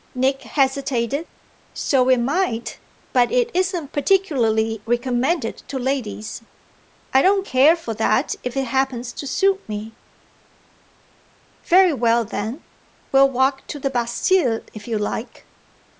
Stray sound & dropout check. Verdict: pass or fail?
pass